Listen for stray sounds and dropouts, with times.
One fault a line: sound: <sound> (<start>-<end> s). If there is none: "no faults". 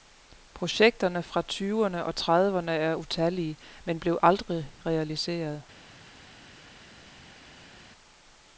no faults